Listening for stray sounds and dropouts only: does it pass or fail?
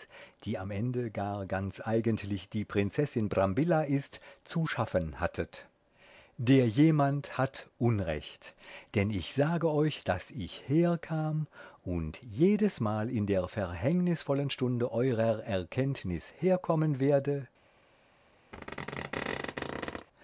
fail